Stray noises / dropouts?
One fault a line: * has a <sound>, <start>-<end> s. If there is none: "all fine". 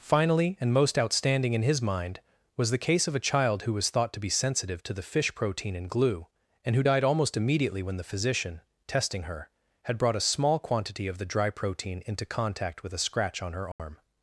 * has a dropout, 13.7-13.8 s